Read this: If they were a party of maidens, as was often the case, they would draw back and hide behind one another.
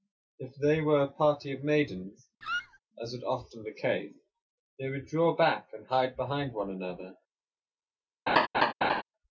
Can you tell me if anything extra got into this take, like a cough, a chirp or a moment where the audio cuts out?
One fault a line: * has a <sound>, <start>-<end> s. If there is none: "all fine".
* has a squeak, 2.4-2.8 s
* has a laugh, 8.3-9.0 s